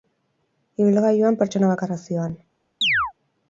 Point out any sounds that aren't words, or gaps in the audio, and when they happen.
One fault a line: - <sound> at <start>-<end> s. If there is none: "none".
- chirp at 2.8-3.1 s